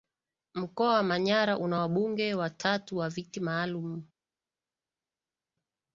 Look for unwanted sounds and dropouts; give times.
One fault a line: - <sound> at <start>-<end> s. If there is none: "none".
none